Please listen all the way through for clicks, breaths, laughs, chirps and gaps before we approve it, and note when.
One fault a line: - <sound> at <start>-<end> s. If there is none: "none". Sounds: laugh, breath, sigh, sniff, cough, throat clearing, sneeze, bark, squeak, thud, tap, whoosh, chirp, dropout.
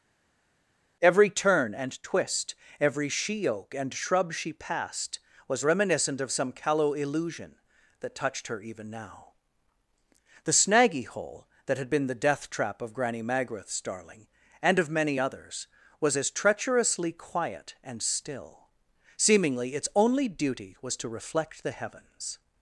none